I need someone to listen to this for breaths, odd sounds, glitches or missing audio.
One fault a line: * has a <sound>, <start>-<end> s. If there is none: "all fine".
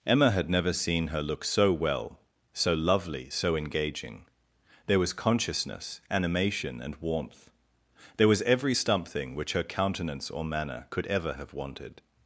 all fine